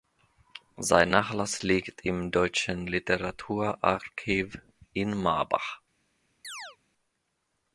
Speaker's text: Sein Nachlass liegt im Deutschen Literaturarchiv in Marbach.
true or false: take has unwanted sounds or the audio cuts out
true